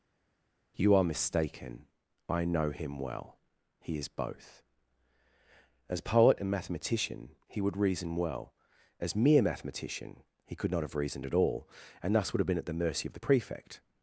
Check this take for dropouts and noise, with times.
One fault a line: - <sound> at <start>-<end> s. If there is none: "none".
none